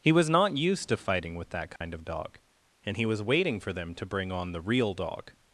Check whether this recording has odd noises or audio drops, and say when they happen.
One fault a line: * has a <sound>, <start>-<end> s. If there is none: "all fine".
* has a dropout, 1.8-1.8 s